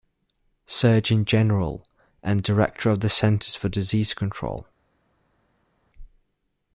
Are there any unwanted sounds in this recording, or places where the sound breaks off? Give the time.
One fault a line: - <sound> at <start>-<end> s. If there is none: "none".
none